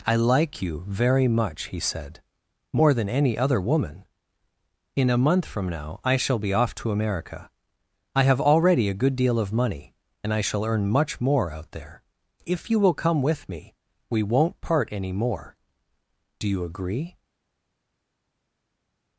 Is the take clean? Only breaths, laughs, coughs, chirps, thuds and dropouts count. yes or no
yes